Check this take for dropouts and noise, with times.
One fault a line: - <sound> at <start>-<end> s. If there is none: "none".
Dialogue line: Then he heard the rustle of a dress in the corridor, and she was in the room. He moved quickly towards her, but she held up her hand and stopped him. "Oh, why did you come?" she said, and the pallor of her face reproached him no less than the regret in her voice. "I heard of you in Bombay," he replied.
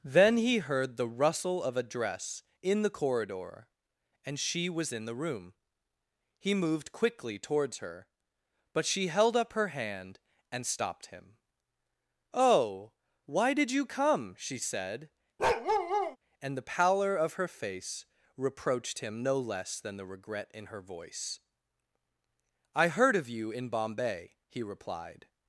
- bark at 15.4-16.2 s